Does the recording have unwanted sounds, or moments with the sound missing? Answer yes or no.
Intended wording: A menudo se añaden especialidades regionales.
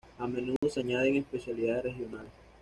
yes